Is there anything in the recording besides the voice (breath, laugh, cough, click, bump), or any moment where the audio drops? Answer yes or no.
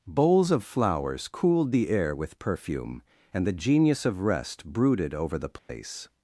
yes